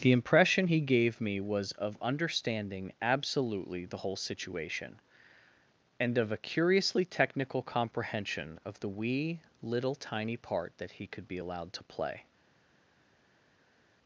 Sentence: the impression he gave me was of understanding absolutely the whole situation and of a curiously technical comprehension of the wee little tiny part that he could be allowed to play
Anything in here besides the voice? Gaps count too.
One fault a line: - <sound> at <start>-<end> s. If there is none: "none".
none